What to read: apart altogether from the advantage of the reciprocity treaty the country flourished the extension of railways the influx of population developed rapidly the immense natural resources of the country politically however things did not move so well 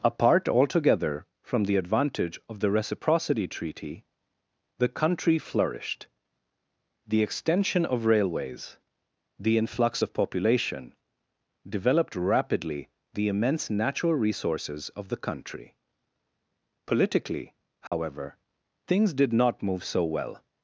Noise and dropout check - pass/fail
fail